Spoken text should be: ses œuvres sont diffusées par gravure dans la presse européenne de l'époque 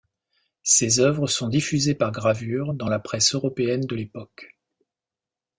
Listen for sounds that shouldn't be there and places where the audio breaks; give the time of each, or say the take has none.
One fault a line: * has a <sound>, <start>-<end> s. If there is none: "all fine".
all fine